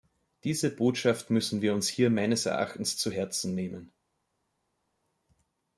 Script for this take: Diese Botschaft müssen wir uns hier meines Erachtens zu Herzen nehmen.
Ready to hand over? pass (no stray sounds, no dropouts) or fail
pass